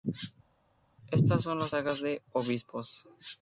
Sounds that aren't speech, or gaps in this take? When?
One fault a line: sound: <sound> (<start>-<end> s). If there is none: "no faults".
no faults